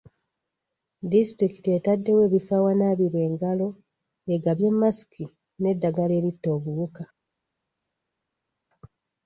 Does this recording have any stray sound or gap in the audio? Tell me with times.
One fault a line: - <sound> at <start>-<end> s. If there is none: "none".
none